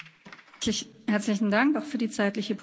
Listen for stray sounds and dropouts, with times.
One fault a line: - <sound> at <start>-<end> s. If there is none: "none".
none